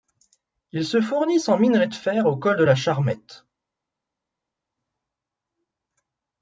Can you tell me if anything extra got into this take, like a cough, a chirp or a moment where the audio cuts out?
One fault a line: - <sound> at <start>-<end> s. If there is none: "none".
none